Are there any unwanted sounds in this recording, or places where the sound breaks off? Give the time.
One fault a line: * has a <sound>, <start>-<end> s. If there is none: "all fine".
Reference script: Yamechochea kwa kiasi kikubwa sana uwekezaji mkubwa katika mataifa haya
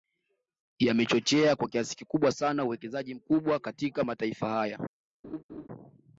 * has a laugh, 5.2-5.7 s